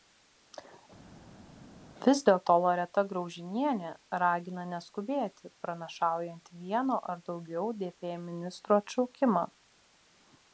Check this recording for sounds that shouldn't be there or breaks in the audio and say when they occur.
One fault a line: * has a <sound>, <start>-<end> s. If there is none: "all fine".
all fine